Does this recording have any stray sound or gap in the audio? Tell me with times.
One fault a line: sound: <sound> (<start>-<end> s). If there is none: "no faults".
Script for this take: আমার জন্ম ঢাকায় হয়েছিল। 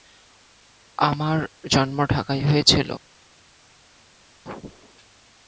no faults